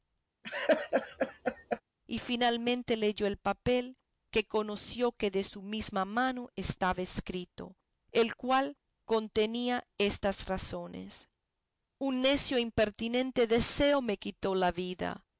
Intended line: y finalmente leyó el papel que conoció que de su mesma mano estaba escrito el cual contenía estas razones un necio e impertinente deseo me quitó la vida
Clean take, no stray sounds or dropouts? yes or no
no